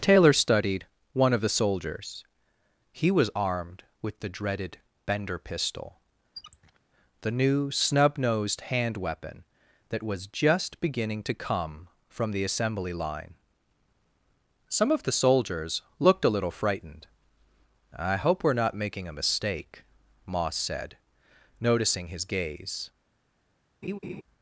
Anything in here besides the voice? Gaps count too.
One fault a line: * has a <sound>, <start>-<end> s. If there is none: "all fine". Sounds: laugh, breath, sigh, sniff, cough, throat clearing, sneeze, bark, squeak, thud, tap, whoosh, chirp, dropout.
* has a squeak, 6.3-6.8 s
* has a laugh, 23.8-24.2 s